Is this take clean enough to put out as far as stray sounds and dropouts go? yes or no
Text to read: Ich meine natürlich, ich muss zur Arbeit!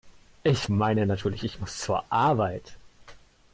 yes